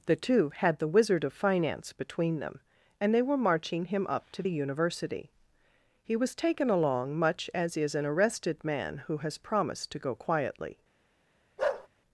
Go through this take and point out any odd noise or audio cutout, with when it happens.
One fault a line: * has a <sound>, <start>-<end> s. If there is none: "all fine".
* has a bark, 11.6-11.9 s